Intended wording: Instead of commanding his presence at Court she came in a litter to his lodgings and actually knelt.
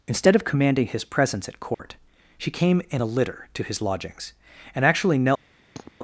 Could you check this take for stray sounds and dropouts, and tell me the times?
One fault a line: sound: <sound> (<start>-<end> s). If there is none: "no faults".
sound: dropout (1.7-1.8 s)
sound: sniff (5.7-5.9 s)